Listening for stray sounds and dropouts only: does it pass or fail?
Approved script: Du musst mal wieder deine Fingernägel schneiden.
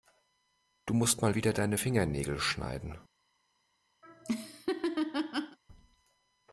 fail